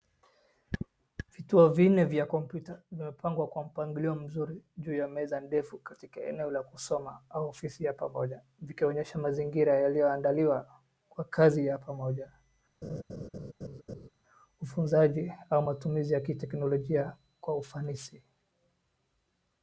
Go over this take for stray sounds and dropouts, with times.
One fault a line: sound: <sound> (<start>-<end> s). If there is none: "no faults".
sound: laugh (12.8-14.1 s)